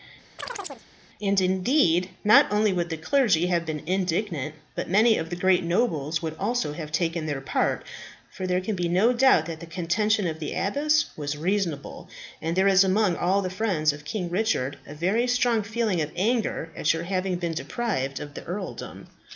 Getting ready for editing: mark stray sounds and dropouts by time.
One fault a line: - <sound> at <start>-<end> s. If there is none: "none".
- chirp at 0.4-0.9 s